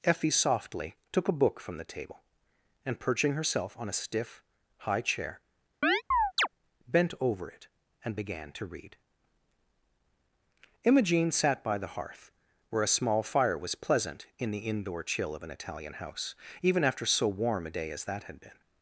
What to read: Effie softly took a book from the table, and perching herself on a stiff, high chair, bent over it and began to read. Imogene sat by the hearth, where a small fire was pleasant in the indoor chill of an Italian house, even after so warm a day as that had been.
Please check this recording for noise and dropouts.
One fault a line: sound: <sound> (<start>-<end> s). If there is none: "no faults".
sound: chirp (5.8-6.5 s)